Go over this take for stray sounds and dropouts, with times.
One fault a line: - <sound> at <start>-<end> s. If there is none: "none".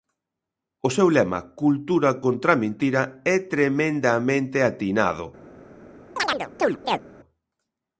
- chirp at 6.2-7.0 s